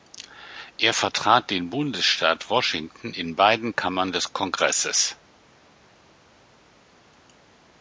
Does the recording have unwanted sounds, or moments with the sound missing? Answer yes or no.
no